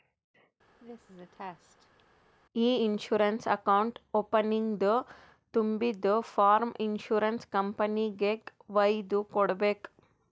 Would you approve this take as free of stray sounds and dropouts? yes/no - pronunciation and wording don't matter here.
no